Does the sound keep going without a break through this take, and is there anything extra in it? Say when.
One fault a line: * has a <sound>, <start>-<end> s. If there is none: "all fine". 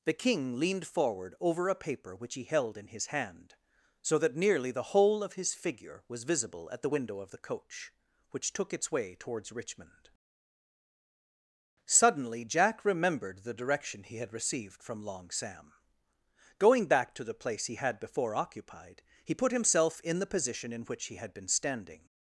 all fine